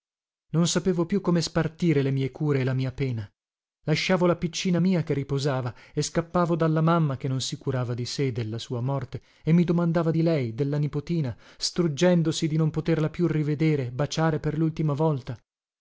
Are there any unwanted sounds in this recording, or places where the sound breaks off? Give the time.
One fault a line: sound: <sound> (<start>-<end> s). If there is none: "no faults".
no faults